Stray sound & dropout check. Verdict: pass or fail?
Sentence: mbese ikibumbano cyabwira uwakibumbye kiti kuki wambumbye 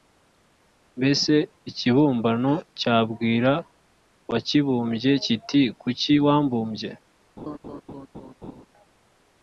fail